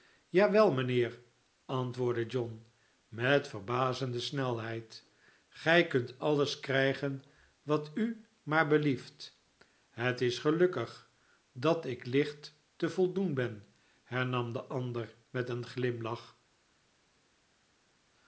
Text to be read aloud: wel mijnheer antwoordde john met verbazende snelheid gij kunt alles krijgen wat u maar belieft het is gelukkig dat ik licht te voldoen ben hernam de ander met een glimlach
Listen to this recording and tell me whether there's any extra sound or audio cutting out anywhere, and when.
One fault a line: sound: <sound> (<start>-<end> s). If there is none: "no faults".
no faults